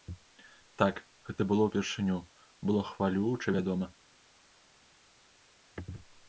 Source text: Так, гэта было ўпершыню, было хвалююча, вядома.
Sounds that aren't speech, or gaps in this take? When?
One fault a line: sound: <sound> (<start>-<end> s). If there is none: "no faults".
no faults